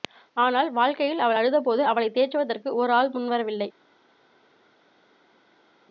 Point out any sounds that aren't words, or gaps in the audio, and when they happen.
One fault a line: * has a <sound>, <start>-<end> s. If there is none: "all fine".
all fine